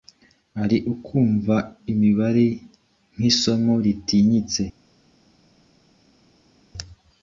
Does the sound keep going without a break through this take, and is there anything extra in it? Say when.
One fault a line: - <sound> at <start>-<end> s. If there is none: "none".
none